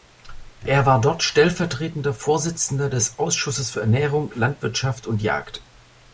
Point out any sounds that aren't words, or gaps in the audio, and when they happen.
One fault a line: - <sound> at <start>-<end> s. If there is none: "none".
none